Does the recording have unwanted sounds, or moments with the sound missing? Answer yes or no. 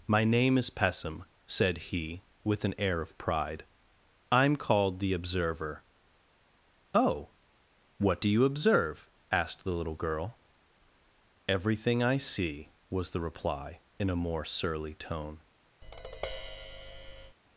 yes